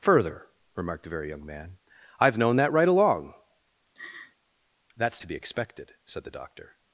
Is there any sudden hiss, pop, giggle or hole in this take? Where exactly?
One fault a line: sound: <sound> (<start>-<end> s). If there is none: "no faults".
sound: laugh (3.9-4.4 s)